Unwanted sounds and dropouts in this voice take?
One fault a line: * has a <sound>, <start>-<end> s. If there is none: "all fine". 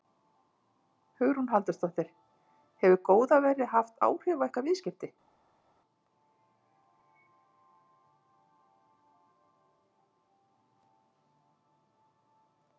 all fine